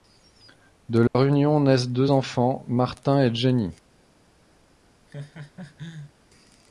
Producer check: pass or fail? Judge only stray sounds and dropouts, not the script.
fail